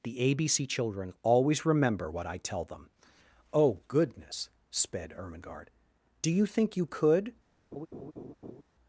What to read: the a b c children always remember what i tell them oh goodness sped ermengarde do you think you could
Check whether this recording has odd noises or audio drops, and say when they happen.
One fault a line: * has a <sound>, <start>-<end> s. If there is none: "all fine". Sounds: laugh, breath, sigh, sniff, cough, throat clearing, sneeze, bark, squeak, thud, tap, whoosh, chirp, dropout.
* has a laugh, 7.7-8.6 s